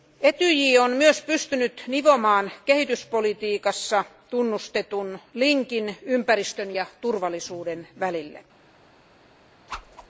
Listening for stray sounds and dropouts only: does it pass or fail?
fail